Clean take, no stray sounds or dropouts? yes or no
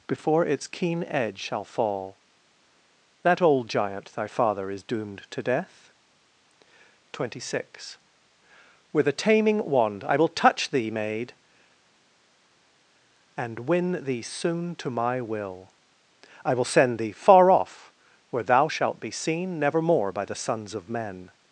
yes